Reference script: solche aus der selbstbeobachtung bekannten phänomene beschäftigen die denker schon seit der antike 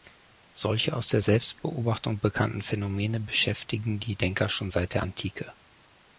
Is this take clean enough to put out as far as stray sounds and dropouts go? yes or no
yes